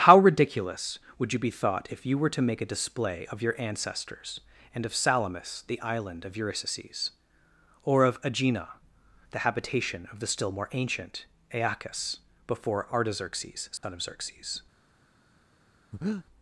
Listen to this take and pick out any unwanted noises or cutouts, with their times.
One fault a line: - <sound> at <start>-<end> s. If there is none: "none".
- dropout at 13.8-13.8 s
- breath at 15.9-16.3 s